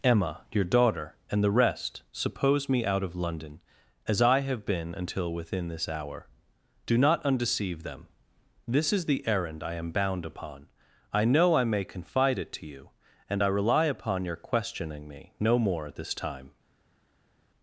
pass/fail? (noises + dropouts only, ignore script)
pass